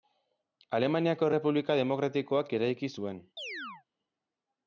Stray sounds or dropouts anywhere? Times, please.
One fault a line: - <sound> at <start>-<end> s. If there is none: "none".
- chirp at 3.4-3.8 s